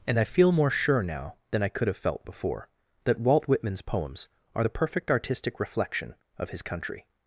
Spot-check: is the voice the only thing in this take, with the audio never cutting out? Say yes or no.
yes